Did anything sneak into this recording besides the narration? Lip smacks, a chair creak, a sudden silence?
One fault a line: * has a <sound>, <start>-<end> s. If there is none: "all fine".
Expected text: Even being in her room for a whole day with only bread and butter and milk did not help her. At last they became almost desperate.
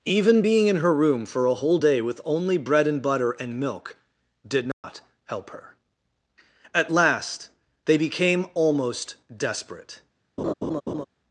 * has a dropout, 4.7-4.8 s
* has a laugh, 10.4-11.0 s